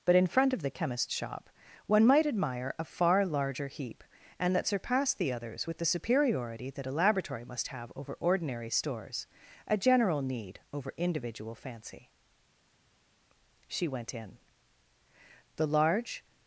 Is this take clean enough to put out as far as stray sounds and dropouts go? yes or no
yes